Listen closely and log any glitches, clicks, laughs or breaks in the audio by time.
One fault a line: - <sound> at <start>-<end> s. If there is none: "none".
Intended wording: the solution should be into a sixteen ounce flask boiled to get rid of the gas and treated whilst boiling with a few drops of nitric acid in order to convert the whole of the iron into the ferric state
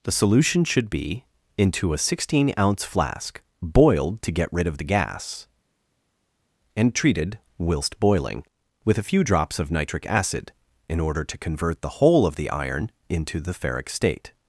none